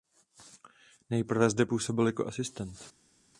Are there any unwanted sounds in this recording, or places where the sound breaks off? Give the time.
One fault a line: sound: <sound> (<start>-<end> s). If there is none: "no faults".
no faults